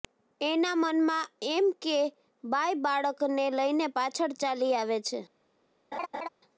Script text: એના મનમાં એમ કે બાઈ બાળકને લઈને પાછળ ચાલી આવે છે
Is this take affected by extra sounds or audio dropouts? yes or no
yes